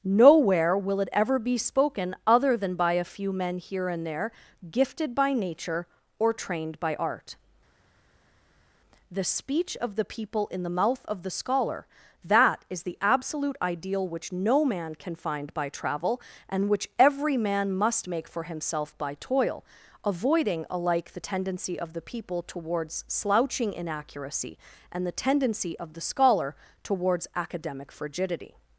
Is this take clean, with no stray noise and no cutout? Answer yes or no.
yes